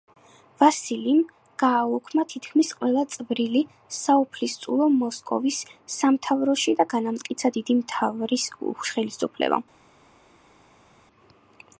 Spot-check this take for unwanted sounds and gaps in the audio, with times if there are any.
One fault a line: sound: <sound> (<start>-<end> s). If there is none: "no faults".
no faults